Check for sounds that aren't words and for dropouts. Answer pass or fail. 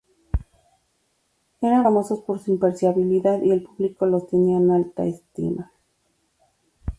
pass